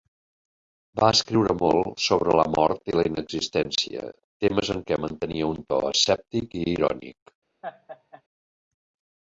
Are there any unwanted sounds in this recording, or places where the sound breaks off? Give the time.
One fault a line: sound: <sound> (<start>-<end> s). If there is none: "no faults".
sound: laugh (7.6-8.2 s)